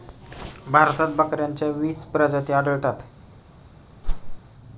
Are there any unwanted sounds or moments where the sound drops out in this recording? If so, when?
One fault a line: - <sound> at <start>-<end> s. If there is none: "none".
- whoosh at 4.0-4.4 s